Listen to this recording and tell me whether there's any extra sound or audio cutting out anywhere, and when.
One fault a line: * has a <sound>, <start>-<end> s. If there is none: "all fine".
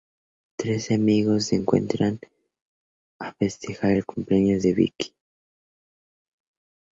all fine